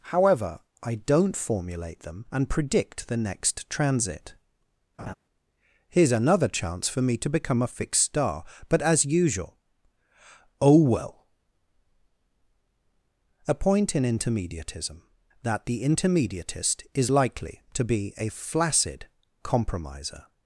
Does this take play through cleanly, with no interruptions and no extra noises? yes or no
no